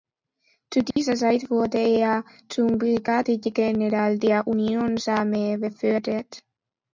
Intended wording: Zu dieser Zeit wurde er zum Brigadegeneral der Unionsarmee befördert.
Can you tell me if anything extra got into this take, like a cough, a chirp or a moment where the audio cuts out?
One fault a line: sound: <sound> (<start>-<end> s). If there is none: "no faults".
sound: dropout (0.9-1.0 s)